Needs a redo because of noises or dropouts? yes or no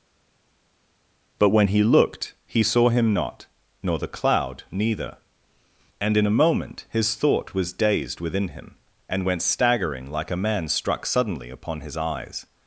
no